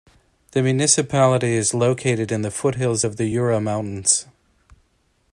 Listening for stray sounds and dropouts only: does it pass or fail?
pass